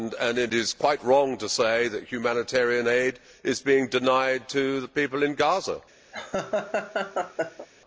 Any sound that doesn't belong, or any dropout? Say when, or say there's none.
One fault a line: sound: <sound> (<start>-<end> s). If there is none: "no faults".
sound: laugh (6.1-7.7 s)